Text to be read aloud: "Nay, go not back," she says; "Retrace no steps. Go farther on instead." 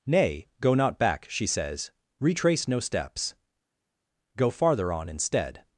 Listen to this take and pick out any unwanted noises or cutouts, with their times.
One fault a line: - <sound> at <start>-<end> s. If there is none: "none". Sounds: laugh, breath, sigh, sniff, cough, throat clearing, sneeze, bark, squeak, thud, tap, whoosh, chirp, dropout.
none